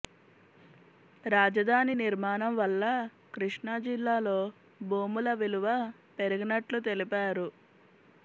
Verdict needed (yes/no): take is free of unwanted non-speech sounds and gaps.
yes